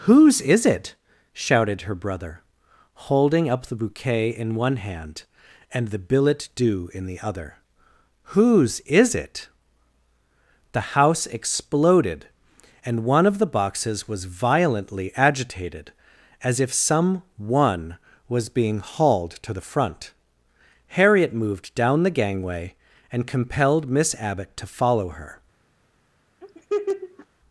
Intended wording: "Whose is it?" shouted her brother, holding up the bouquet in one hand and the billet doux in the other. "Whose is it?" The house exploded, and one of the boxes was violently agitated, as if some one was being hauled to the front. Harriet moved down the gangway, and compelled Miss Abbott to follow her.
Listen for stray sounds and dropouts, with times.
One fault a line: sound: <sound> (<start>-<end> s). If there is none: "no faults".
sound: laugh (26.4-27.3 s)